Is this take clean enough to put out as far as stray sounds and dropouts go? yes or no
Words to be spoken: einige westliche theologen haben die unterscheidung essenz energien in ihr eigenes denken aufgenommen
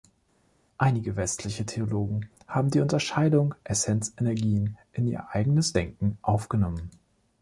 yes